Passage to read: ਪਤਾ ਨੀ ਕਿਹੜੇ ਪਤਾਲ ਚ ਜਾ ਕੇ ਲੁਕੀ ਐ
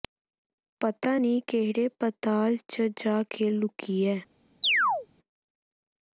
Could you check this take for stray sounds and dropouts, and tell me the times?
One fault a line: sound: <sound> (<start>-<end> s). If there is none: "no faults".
sound: chirp (4.6-5.1 s)